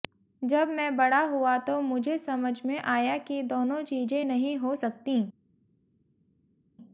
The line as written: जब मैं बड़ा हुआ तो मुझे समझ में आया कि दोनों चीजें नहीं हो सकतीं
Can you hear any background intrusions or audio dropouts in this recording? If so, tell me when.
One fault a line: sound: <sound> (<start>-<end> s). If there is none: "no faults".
no faults